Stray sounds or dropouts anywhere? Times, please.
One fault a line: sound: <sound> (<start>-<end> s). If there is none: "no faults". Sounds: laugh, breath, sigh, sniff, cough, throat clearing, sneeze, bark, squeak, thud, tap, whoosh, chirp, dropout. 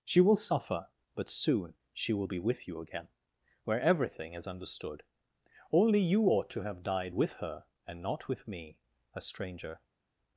no faults